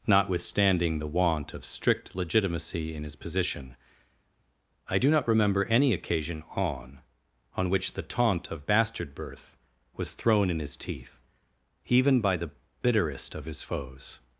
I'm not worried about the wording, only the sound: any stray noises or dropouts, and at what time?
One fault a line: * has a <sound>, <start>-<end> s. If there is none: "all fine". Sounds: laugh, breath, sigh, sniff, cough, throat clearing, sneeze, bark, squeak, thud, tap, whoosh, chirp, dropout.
all fine